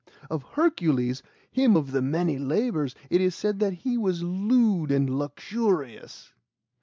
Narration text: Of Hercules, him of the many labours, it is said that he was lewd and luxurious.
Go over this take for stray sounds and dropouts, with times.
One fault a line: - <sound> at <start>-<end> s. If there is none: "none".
none